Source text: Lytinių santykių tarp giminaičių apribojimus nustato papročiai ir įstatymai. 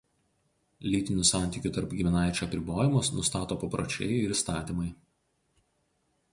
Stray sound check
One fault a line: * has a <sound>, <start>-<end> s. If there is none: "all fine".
all fine